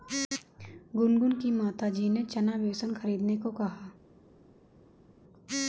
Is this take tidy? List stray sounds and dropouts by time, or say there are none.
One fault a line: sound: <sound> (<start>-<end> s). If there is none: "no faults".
no faults